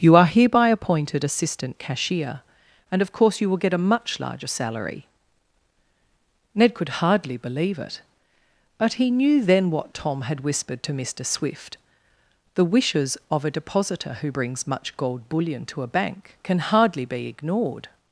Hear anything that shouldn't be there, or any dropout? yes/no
no